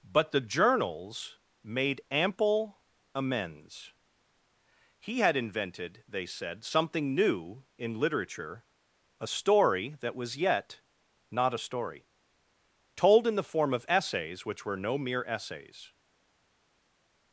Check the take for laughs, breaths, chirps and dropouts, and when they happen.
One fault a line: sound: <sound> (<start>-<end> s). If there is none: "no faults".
no faults